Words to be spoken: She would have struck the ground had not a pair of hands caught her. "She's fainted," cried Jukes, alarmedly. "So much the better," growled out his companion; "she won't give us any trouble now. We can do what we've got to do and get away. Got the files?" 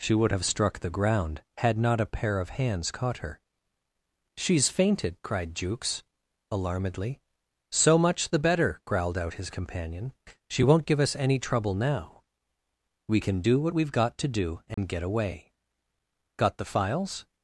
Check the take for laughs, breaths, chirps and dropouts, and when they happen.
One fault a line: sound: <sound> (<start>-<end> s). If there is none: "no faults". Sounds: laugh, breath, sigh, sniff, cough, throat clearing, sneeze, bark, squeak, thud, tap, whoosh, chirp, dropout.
sound: dropout (14.7-14.8 s)